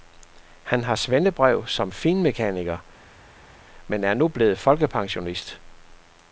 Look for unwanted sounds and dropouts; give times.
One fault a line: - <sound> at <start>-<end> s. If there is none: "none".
none